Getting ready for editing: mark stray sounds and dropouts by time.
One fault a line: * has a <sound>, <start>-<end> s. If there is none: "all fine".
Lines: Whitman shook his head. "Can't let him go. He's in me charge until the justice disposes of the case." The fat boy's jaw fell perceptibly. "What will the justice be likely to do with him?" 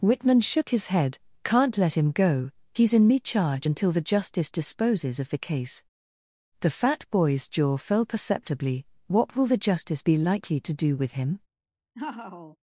* has a laugh, 11.9-12.6 s